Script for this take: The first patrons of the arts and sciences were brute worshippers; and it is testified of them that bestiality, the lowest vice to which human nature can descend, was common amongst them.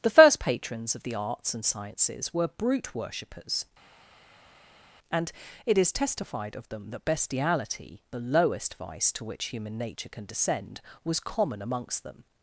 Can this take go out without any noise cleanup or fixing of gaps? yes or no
yes